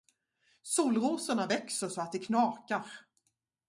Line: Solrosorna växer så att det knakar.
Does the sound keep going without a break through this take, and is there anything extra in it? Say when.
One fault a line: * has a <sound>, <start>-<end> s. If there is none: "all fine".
all fine